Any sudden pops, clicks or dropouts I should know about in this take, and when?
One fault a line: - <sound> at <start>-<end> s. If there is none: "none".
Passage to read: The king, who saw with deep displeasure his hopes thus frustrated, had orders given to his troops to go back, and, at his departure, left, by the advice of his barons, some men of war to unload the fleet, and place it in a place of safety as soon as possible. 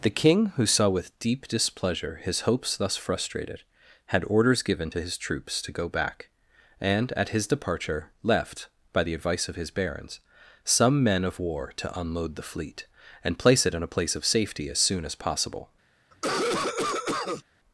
- cough at 16.1-17.4 s